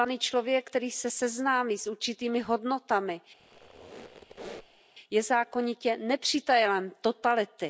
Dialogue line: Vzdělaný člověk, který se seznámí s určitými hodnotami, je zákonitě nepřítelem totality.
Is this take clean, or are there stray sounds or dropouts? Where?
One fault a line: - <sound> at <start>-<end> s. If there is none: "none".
- squeak at 3.4-4.8 s